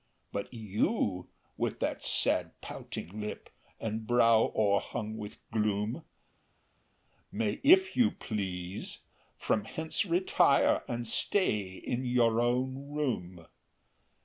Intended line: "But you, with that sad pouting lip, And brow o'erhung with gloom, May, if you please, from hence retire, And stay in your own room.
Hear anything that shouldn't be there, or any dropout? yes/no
no